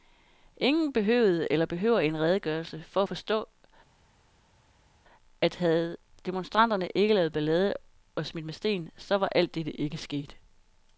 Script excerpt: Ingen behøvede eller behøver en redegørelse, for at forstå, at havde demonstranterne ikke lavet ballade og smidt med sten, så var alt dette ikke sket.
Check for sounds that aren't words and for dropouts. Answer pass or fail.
pass